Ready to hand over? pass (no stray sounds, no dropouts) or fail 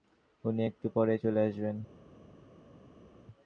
pass